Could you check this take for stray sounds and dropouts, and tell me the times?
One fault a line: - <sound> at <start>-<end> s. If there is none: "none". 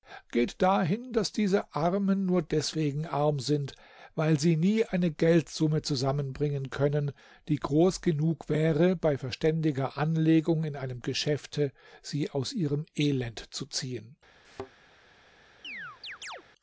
- thud at 14.4-14.7 s
- chirp at 15.6-16.4 s